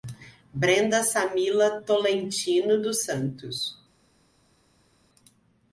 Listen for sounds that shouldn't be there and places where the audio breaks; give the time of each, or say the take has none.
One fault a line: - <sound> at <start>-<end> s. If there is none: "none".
none